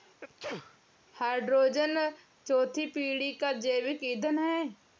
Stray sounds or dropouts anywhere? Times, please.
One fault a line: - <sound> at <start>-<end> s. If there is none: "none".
- sneeze at 0.2-0.8 s